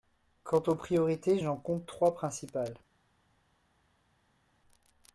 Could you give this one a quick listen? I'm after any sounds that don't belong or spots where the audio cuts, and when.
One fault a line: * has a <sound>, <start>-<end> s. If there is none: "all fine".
all fine